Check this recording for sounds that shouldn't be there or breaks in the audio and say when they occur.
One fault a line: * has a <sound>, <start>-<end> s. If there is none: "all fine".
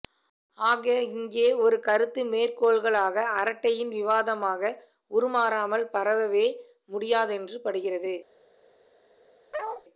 * has a bark, 9.5-9.8 s